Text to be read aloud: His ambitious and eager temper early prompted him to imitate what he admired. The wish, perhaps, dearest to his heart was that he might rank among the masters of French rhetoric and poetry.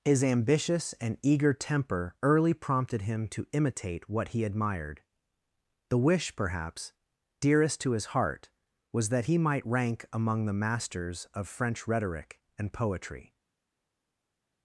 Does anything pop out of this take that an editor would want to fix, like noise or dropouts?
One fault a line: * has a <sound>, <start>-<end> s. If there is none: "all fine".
all fine